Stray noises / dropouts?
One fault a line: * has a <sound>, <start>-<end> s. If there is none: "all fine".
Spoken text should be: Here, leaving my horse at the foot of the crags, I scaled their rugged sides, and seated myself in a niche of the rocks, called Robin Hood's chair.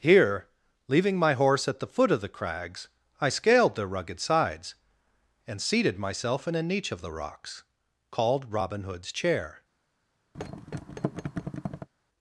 * has a thud, 10.3-11.9 s